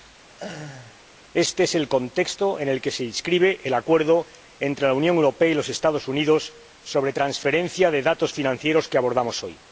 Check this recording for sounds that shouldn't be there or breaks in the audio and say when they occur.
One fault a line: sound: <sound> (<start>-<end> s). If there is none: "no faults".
sound: laugh (0.3-1.0 s)